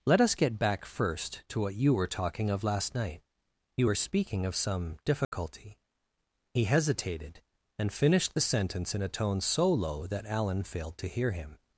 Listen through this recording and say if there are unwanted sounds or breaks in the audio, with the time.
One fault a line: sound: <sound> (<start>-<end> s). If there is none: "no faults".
sound: dropout (5.2-5.3 s)